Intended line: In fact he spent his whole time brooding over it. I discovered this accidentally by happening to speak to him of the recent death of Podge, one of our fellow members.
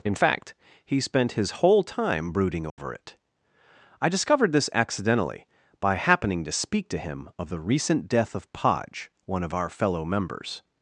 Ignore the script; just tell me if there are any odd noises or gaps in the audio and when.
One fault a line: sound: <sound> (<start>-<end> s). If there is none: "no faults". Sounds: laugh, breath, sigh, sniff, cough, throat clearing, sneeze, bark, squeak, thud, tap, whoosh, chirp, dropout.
sound: dropout (2.7-2.8 s)